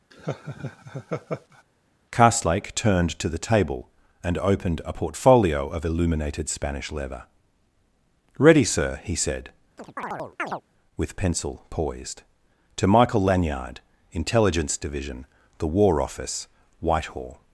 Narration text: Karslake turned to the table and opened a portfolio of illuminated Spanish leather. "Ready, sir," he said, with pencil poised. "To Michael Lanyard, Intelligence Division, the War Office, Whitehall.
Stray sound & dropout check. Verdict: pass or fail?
fail